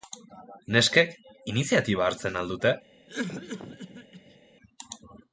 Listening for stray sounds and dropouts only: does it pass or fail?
fail